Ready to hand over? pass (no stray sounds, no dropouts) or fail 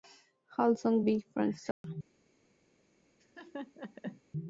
fail